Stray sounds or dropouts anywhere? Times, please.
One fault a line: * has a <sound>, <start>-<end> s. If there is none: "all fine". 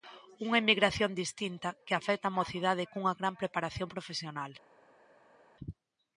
all fine